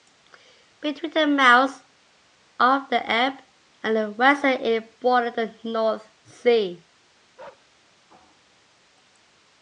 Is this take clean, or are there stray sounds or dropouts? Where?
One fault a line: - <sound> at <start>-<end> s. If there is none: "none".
- bark at 7.4-7.7 s